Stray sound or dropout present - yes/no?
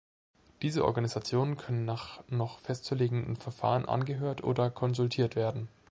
no